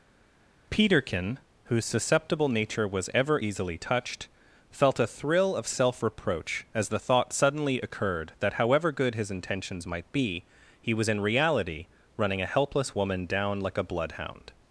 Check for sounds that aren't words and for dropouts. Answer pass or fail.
pass